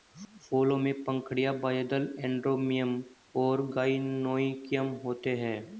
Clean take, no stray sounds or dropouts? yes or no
yes